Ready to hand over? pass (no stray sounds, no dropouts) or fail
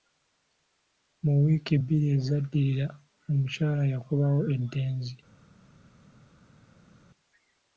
pass